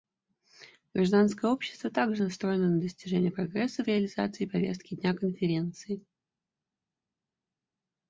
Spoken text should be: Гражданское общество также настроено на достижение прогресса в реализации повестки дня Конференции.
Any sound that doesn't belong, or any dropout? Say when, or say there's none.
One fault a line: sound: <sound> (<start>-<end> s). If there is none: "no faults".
no faults